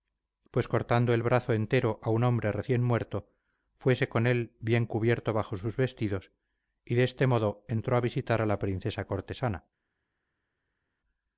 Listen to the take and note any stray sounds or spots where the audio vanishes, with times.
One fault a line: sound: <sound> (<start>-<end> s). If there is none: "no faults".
no faults